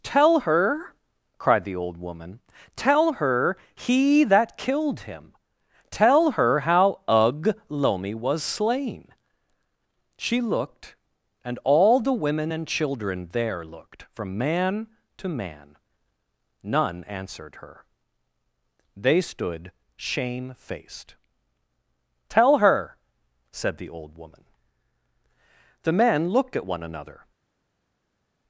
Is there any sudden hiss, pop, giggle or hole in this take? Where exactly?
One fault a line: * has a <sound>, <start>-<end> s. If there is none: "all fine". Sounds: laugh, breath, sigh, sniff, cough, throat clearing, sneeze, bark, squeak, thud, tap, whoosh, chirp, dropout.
all fine